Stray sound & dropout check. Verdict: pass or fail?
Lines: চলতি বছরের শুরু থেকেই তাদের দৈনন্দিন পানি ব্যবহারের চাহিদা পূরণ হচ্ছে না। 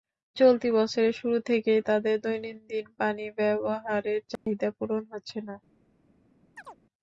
fail